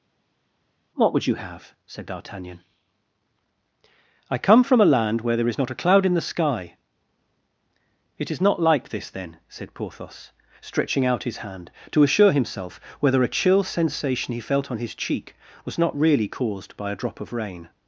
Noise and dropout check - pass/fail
pass